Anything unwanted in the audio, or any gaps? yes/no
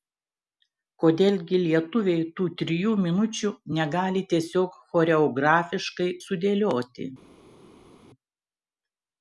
no